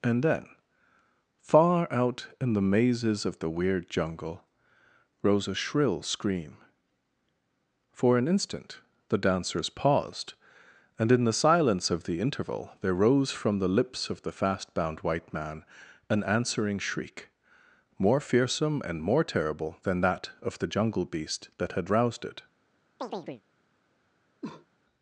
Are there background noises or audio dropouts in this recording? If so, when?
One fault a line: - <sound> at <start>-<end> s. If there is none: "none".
- chirp at 23.0-23.4 s
- cough at 24.4-24.7 s